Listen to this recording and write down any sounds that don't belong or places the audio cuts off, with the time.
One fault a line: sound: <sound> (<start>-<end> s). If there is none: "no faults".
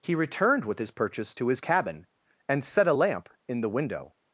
no faults